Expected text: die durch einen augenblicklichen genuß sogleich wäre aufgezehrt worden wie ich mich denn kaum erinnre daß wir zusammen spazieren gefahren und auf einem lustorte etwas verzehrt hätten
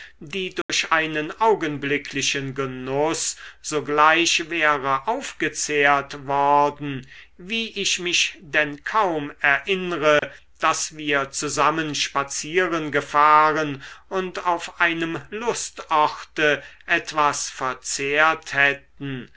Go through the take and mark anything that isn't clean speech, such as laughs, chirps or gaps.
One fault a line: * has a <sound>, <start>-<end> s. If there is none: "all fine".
* has a dropout, 0.6-0.7 s
* has a dropout, 10.2-10.2 s